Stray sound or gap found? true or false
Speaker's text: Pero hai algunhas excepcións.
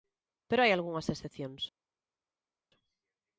false